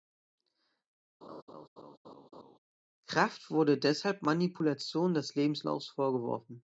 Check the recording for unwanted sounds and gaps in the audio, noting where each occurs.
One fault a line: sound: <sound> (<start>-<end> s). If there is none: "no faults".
sound: laugh (1.2-2.6 s)